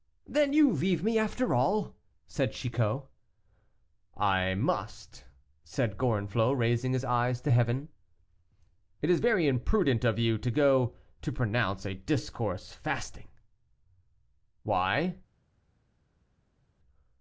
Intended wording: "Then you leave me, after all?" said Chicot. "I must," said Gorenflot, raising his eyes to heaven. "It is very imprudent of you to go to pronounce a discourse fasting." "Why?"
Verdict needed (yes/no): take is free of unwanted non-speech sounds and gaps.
yes